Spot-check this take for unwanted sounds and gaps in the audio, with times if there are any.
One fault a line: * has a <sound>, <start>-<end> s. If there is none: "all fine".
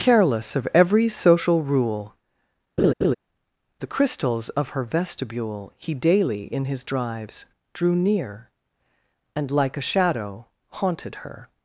* has a laugh, 2.8-3.1 s